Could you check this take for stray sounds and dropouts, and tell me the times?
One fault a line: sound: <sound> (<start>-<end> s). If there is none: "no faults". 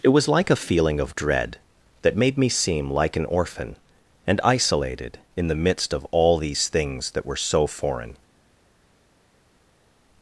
no faults